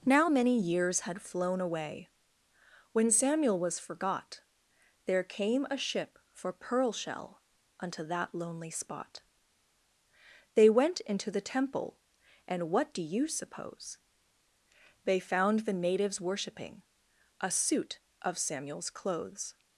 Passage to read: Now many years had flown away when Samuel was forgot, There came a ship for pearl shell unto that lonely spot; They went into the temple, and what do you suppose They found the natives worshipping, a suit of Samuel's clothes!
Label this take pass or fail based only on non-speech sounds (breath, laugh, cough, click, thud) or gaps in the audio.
pass